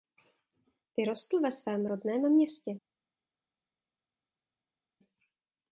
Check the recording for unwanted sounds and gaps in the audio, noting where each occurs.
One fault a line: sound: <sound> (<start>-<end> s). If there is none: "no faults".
no faults